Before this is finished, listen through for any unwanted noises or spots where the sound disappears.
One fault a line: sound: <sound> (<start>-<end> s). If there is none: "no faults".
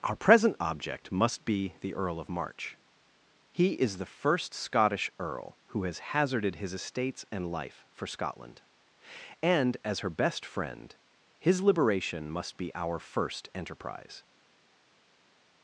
no faults